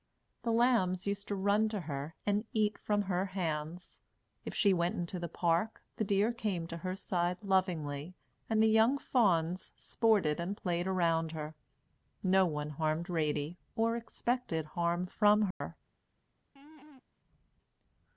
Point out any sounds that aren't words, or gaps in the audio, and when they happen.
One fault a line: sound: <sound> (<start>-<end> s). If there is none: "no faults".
sound: dropout (15.5-15.6 s)
sound: laugh (16.6-17.0 s)